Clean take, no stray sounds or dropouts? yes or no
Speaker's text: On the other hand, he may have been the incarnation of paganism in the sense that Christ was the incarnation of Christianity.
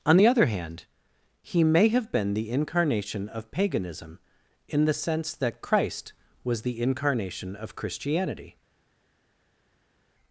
yes